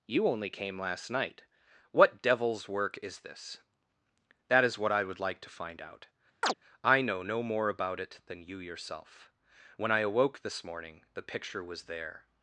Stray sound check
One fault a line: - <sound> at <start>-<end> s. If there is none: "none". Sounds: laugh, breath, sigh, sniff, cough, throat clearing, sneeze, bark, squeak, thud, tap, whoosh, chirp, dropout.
- chirp at 6.4-6.5 s